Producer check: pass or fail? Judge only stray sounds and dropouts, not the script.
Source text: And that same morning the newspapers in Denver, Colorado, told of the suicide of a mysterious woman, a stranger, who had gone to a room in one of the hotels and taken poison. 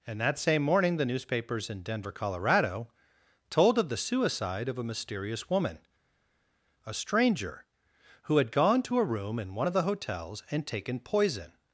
pass